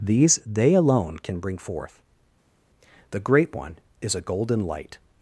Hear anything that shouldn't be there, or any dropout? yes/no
no